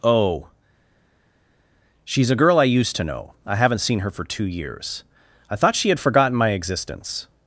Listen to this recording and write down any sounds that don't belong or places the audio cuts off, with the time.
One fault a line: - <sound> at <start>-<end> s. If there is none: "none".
none